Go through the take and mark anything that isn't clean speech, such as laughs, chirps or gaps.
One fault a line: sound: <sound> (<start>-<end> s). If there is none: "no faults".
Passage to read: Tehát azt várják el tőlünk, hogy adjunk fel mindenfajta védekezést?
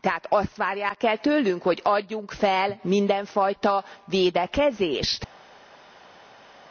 no faults